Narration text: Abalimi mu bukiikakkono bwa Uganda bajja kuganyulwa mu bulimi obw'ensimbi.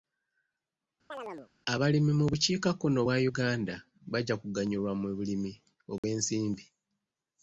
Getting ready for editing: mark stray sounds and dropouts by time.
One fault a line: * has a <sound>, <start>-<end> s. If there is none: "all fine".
* has a chirp, 1.1-1.5 s
* has a dropout, 6.0-6.0 s